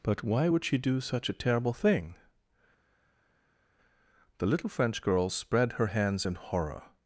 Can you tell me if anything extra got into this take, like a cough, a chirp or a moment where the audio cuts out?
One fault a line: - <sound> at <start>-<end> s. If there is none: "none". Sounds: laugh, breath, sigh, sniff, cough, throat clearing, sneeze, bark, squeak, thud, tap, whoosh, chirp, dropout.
none